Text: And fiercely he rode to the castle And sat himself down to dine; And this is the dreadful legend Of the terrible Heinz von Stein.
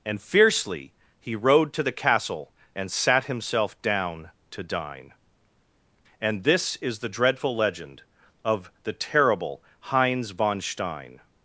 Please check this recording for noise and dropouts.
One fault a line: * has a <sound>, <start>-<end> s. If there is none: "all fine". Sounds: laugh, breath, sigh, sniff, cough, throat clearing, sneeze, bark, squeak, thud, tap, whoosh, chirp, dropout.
all fine